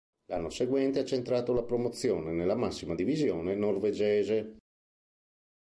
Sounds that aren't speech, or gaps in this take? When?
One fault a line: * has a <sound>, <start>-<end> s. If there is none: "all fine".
all fine